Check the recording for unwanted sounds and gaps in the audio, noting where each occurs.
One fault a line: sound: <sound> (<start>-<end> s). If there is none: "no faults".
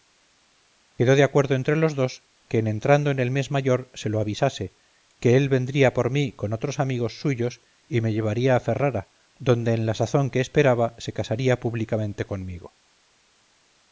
no faults